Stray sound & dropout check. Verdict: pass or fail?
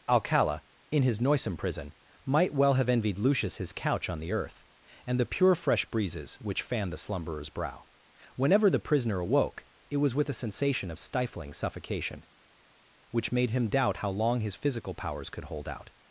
pass